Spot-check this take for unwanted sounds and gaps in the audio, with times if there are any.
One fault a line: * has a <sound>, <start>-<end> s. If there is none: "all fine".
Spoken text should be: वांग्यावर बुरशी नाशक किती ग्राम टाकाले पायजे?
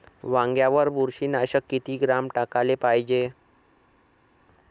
all fine